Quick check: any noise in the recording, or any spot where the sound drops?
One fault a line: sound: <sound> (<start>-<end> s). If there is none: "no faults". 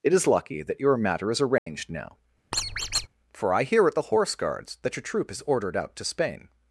sound: dropout (1.6-1.7 s)
sound: squeak (2.5-3.1 s)